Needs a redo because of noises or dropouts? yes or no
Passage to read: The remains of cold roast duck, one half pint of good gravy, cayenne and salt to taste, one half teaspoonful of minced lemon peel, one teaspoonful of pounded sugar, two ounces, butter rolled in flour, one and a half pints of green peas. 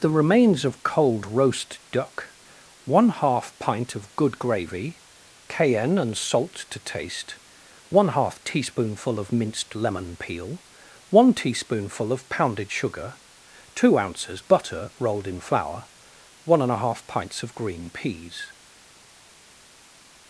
no